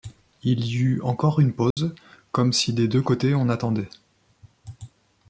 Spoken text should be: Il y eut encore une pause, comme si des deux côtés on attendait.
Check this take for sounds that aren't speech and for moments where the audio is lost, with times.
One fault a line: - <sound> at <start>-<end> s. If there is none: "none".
- dropout at 1.7-1.8 s